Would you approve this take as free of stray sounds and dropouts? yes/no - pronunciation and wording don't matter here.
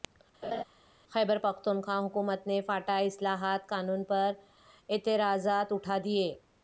no